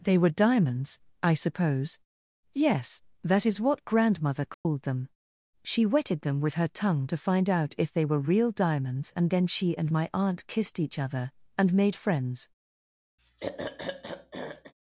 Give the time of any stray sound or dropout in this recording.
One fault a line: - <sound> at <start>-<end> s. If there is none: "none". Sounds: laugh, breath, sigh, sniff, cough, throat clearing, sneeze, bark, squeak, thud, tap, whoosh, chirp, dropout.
- dropout at 4.5-4.7 s
- throat clearing at 13.2-14.7 s